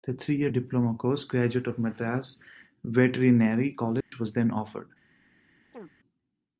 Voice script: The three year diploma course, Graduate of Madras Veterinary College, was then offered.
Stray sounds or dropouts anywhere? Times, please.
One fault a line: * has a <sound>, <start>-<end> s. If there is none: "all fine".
* has a dropout, 4.0-4.1 s
* has a chirp, 5.7-6.0 s